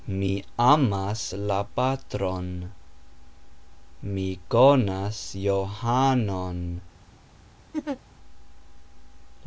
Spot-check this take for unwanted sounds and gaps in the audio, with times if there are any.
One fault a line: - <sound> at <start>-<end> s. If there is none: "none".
- laugh at 7.7-8.0 s